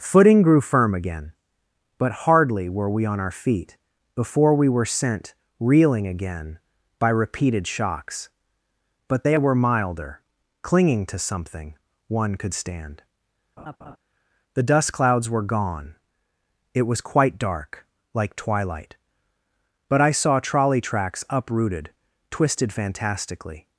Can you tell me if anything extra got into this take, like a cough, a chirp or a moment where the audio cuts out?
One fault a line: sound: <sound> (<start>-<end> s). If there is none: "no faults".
sound: laugh (13.6-14.0 s)